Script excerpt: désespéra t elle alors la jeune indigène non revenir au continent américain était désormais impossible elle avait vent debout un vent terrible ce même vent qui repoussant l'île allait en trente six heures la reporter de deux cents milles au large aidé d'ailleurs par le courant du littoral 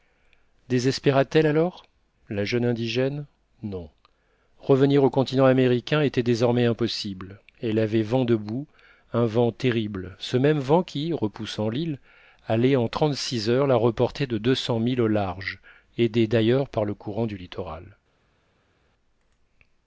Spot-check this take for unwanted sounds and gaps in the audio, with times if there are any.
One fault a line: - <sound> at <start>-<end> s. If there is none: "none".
none